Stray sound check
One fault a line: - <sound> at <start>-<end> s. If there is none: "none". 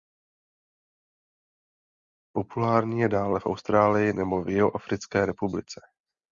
none